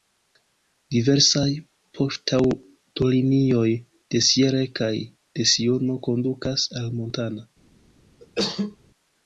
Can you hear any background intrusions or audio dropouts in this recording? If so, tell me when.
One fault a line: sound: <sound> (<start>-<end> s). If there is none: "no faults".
sound: cough (8.2-8.8 s)